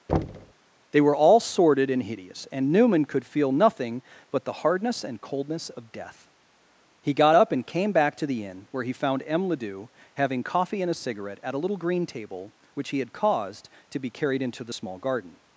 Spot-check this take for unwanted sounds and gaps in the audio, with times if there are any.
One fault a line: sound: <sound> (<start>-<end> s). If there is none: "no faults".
sound: thud (0.1-0.5 s)